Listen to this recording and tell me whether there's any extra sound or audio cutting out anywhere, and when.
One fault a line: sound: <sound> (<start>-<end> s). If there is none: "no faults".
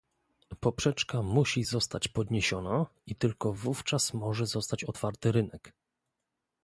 no faults